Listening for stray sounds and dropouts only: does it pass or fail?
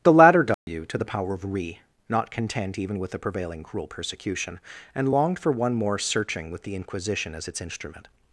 fail